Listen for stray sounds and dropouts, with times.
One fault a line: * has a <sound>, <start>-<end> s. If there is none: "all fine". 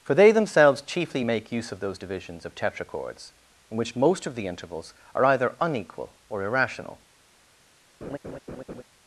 * has a laugh, 8.0-8.8 s